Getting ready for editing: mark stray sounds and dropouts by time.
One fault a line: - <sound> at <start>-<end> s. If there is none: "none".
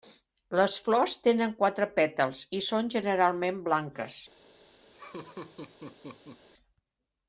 - laugh at 4.9-6.5 s